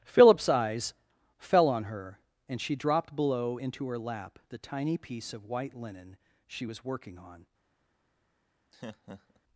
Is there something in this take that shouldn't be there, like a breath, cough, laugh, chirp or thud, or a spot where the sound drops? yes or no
yes